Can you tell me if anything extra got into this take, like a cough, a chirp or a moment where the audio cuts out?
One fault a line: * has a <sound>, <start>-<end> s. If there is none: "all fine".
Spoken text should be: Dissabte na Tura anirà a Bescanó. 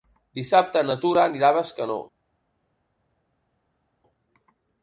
all fine